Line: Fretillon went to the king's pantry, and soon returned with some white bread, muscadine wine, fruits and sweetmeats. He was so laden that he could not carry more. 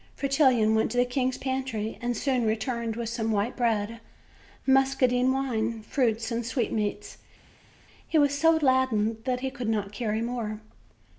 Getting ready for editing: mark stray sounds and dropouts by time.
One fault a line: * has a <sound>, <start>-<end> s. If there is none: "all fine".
all fine